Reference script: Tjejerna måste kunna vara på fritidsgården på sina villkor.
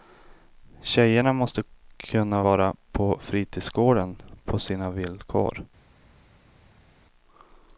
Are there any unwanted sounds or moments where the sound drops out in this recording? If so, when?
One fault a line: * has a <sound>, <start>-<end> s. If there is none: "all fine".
all fine